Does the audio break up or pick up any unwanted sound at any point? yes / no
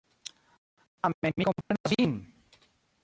yes